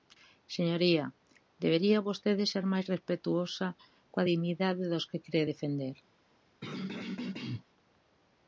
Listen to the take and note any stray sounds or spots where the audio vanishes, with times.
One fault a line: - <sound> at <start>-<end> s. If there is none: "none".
- throat clearing at 6.6-7.6 s